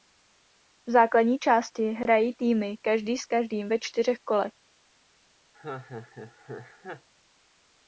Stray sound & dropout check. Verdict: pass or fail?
fail